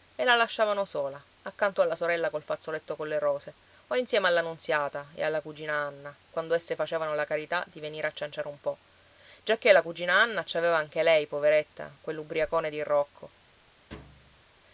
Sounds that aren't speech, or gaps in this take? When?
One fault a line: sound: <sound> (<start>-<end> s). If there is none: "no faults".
sound: thud (13.9-14.5 s)